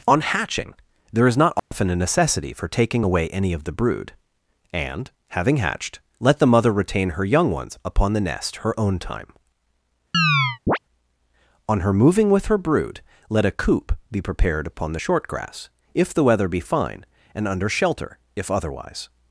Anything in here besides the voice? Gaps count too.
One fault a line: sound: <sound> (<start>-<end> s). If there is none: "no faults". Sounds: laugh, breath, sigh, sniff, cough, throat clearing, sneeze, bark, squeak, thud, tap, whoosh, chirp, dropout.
sound: dropout (1.6-1.7 s)
sound: chirp (10.1-10.8 s)